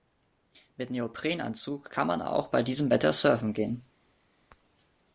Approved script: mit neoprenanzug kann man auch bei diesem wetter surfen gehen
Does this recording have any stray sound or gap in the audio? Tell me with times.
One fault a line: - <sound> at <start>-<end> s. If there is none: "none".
none